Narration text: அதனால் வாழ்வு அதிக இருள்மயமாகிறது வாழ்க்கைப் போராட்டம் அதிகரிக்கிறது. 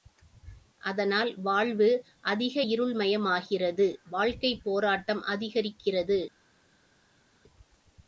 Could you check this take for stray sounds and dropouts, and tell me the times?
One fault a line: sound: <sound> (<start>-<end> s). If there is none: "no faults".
no faults